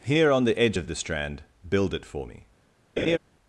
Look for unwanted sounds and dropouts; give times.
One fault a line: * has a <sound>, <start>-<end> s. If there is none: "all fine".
* has a laugh, 3.0-3.2 s